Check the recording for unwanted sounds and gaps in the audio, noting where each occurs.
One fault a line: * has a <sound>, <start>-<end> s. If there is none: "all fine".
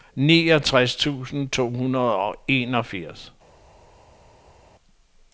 all fine